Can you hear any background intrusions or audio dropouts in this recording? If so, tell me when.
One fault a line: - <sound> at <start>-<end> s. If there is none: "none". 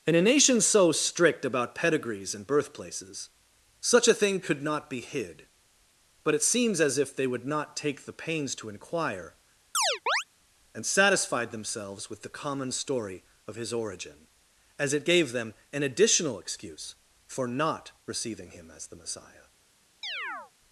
- chirp at 9.7-10.2 s
- chirp at 20.0-20.5 s